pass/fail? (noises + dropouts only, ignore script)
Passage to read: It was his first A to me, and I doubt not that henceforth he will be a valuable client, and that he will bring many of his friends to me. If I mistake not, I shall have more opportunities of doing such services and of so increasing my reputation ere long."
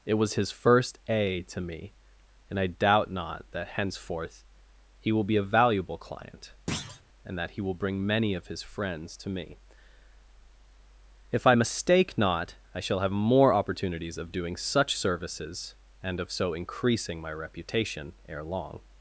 fail